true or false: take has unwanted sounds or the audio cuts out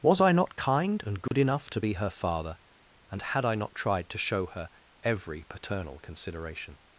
true